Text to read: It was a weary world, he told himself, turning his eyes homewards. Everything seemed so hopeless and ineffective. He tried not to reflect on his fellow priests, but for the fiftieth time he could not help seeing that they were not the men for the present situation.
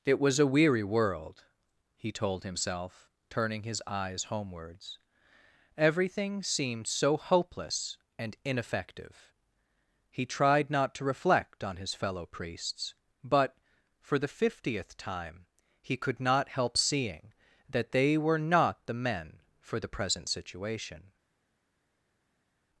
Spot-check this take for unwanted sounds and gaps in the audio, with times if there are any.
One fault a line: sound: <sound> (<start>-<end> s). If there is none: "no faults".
no faults